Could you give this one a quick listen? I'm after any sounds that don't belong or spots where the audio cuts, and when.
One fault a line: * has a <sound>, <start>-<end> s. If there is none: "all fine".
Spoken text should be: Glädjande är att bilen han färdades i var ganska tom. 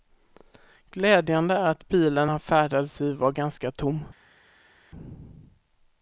all fine